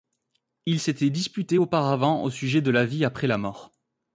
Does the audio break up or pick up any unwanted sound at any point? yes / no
no